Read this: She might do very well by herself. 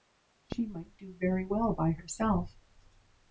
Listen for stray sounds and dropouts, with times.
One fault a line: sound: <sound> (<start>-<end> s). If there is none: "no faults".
no faults